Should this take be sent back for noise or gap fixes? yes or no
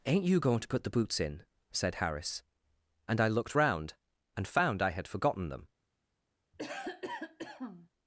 yes